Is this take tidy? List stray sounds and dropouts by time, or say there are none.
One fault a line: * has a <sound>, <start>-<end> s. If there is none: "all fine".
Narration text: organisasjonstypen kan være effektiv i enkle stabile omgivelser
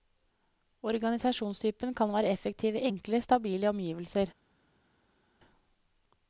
all fine